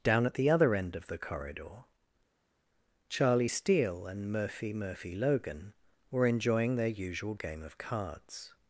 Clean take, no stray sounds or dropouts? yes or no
yes